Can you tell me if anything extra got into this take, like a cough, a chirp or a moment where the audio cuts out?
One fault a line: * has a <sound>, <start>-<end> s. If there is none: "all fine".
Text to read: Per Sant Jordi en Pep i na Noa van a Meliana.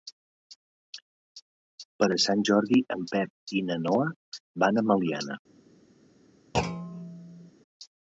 * has a thud, 6.5-7.5 s